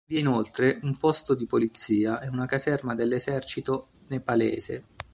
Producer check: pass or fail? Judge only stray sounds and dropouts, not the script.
pass